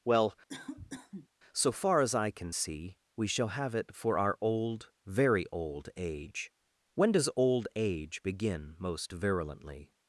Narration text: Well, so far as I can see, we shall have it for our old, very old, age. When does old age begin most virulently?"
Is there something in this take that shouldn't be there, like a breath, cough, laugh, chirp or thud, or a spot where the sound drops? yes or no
yes